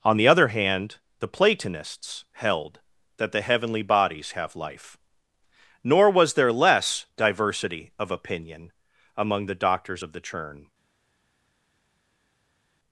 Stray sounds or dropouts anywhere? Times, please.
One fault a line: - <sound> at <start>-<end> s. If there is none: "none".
none